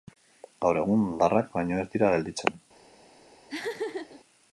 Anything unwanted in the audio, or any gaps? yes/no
yes